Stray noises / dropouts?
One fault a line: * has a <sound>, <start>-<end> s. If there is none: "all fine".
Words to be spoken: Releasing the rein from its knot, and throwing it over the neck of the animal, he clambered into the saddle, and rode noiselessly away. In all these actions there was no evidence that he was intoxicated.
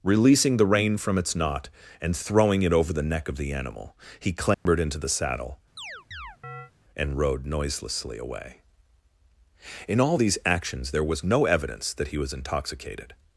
* has a dropout, 4.5-4.7 s
* has a chirp, 5.8-6.7 s